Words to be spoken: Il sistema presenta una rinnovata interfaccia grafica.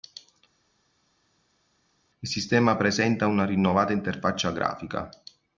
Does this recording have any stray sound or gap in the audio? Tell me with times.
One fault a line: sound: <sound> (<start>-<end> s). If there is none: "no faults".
no faults